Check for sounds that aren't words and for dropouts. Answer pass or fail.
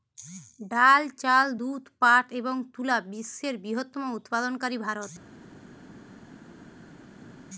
pass